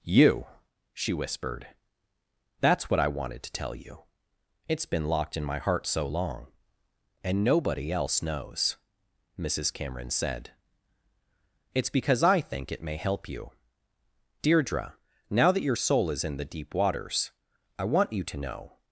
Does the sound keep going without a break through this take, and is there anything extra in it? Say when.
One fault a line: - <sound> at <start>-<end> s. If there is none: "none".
none